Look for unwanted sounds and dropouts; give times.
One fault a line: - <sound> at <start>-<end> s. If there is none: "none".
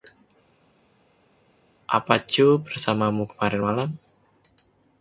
none